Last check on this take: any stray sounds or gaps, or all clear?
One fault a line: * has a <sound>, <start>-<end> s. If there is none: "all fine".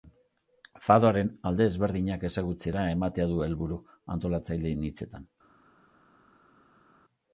all fine